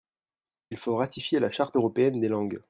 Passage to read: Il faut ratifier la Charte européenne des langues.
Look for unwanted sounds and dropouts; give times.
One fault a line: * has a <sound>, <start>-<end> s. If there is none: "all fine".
all fine